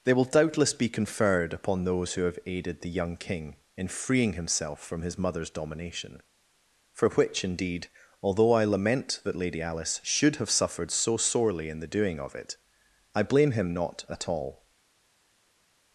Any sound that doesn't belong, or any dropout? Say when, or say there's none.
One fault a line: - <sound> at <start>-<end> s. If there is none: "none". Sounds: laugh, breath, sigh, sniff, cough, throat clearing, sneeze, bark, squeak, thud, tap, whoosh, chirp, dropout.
none